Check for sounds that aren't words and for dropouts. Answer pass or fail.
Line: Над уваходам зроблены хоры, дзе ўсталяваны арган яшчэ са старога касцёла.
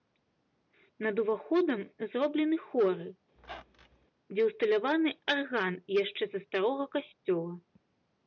fail